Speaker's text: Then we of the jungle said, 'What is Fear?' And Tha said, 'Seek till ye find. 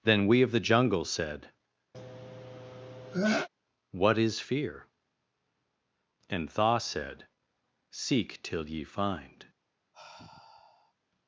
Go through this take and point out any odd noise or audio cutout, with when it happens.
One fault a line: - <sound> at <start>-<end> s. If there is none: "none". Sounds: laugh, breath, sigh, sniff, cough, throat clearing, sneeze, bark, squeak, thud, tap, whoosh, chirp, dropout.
- sneeze at 1.9-3.5 s
- sigh at 9.9-10.9 s